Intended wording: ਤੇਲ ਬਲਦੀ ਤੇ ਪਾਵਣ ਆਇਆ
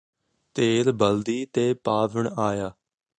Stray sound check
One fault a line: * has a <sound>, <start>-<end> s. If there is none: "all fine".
all fine